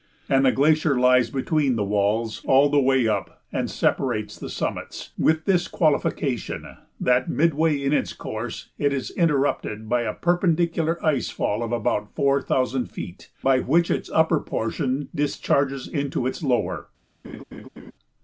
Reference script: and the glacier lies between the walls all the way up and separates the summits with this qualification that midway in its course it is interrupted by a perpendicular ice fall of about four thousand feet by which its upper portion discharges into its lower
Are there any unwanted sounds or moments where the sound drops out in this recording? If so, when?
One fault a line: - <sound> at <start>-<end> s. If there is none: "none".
- laugh at 17.2-17.9 s